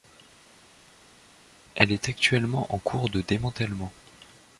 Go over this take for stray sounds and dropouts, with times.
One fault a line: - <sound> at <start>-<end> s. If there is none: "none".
none